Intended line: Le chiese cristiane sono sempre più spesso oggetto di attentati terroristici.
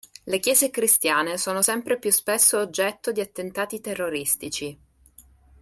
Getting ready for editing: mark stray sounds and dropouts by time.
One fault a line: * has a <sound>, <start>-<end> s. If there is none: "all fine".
all fine